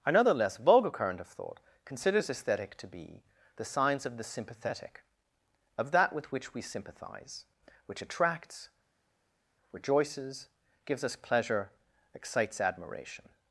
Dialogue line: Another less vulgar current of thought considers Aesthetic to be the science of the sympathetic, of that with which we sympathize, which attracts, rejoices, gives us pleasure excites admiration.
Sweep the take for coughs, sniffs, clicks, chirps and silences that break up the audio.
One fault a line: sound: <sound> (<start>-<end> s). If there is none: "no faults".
no faults